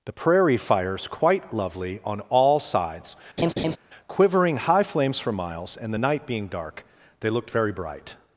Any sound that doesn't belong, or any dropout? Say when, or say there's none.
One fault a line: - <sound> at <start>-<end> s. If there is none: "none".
- laugh at 3.4-3.8 s